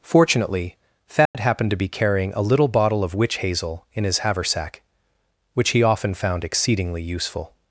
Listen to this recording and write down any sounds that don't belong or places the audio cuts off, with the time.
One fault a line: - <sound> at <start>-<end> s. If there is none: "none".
- dropout at 1.3-1.3 s